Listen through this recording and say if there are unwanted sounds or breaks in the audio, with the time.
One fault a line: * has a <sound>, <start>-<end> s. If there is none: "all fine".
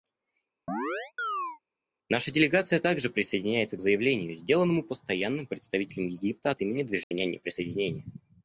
* has a chirp, 0.7-1.6 s
* has a dropout, 7.0-7.1 s